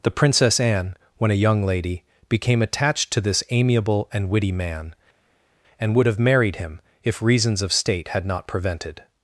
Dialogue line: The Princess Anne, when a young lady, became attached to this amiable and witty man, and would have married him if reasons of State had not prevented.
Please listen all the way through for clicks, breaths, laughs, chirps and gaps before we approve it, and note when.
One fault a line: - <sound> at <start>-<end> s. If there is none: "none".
none